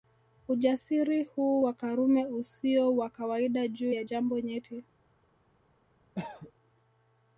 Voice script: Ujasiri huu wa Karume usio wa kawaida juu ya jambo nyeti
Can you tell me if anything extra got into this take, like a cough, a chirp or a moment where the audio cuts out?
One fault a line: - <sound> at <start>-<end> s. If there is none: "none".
- cough at 6.1-6.5 s